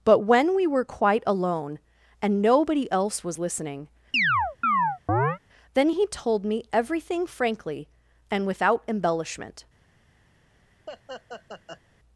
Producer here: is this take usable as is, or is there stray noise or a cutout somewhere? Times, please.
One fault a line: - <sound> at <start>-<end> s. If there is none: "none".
- chirp at 4.1-5.4 s
- laugh at 10.9-11.8 s